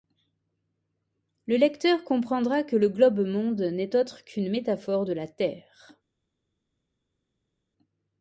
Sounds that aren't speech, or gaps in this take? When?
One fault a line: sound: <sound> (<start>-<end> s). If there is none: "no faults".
no faults